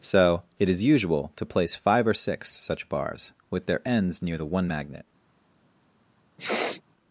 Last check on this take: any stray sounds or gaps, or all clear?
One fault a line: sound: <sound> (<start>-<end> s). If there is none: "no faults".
sound: sniff (6.4-6.8 s)